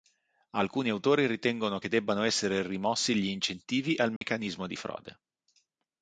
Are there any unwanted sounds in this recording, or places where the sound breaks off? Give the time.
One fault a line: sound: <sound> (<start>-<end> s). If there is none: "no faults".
sound: dropout (4.2-4.2 s)